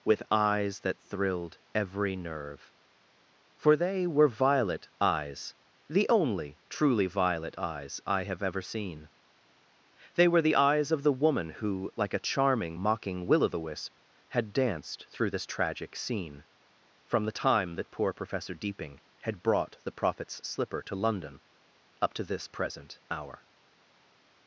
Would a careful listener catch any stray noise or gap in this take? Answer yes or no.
no